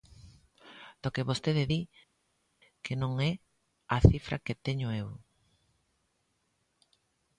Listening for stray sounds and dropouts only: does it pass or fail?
pass